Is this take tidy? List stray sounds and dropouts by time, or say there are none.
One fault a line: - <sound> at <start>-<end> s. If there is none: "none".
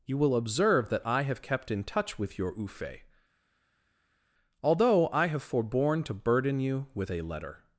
none